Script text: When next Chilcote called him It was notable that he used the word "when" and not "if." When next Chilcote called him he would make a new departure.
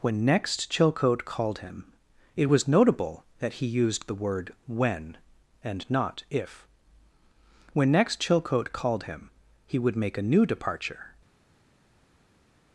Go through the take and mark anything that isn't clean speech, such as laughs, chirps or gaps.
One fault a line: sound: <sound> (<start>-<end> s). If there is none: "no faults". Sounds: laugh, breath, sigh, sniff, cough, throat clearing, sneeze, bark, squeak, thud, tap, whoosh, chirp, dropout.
no faults